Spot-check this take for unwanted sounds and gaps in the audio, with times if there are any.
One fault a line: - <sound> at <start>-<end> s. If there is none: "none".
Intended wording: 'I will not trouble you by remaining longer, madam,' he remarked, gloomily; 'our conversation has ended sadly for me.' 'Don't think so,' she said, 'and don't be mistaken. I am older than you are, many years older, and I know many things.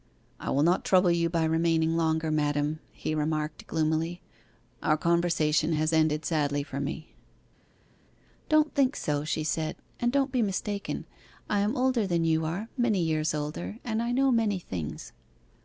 none